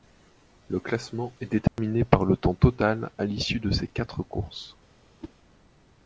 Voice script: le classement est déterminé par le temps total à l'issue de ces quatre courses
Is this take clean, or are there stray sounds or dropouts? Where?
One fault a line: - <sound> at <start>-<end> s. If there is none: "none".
- dropout at 1.7-1.8 s
- whoosh at 5.2-5.3 s